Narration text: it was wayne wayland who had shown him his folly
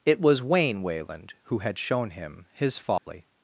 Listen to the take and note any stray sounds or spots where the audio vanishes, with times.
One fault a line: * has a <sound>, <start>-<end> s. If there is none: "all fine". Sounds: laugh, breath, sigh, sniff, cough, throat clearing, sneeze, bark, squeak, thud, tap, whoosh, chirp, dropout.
* has a dropout, 3.0-3.1 s